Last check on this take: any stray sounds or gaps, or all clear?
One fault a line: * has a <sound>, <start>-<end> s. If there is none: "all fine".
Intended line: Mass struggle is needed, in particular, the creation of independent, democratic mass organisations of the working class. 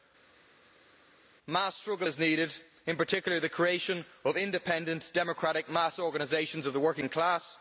all fine